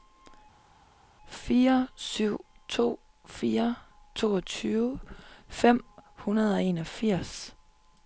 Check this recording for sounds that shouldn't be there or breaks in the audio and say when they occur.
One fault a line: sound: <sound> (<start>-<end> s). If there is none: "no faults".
no faults